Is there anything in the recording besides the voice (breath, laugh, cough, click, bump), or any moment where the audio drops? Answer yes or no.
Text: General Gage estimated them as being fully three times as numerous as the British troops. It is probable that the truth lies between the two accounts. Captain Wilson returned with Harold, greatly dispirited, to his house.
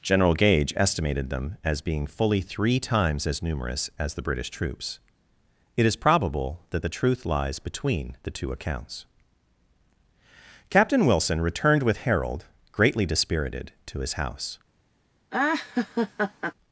yes